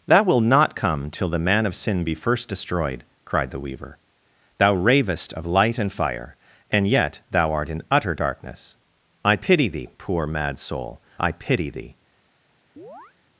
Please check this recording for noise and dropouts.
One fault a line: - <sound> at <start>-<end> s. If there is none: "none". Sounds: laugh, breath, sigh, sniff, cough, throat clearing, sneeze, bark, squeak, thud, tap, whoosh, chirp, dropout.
- chirp at 12.8-13.1 s